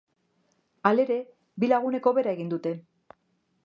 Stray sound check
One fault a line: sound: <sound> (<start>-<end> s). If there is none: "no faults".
no faults